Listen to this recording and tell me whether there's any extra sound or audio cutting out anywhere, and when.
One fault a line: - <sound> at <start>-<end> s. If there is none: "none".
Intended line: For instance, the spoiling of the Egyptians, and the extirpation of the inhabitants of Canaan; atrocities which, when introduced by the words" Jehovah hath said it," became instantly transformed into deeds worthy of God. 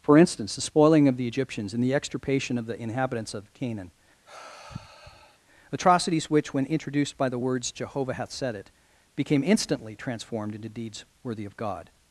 - sigh at 4.3-5.4 s